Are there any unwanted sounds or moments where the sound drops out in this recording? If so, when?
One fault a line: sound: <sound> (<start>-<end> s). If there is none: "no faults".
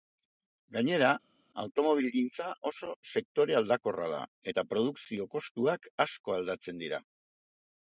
no faults